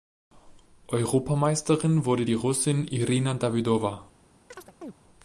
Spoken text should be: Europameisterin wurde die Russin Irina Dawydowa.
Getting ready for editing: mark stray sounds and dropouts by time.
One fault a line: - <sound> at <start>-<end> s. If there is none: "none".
- chirp at 4.5-5.0 s